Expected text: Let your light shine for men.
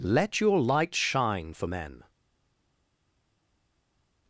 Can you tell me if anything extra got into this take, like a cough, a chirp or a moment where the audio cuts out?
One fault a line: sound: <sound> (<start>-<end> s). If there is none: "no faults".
no faults